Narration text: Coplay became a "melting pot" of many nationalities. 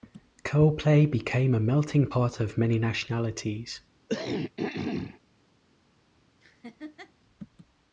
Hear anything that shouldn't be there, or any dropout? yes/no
yes